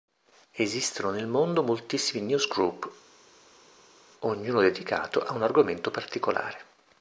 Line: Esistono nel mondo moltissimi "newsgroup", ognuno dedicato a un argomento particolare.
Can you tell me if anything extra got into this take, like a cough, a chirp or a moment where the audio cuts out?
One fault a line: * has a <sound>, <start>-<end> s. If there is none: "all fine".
all fine